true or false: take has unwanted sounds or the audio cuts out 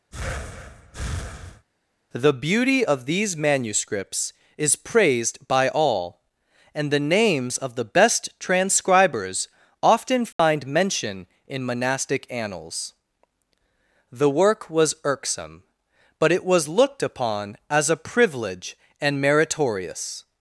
true